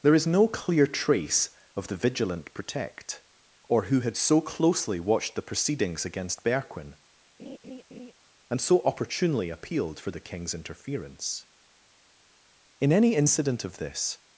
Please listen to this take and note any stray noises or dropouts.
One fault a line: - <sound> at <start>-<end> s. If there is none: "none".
- laugh at 7.4-8.1 s